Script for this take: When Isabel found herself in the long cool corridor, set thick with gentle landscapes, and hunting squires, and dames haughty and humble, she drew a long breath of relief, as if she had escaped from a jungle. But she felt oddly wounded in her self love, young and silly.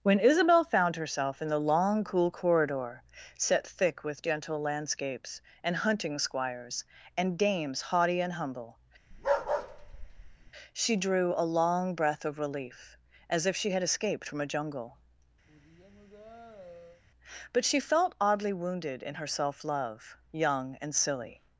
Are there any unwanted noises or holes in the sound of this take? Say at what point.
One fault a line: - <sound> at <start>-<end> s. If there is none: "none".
- bark at 9.1-10.5 s
- sigh at 15.5-17.0 s